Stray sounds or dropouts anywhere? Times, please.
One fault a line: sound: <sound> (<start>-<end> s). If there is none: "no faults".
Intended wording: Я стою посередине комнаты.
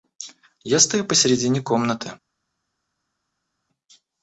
no faults